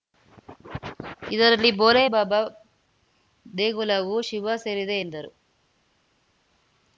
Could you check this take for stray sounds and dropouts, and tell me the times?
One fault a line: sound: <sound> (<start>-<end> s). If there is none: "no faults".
no faults